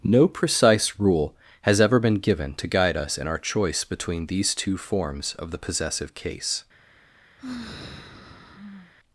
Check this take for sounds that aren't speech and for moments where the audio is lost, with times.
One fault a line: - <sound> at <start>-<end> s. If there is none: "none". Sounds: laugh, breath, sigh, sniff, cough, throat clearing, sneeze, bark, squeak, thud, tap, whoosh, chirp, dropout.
- sigh at 7.4-8.9 s